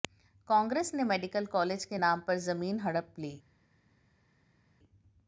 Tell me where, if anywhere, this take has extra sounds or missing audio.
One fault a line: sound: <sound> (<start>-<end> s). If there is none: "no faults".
no faults